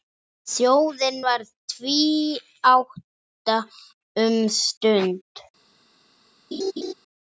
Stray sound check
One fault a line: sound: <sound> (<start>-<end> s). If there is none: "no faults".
sound: laugh (6.5-6.9 s)